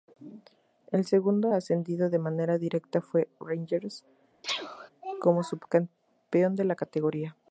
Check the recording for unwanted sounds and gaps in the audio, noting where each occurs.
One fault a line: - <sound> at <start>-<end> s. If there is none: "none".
- sneeze at 4.4-4.9 s